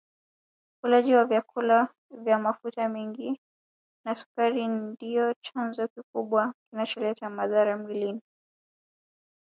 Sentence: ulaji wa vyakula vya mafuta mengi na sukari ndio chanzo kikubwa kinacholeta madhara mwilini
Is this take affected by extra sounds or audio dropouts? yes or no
no